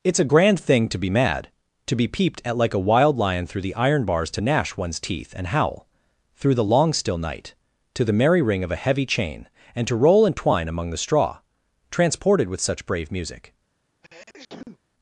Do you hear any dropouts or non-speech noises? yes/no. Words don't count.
yes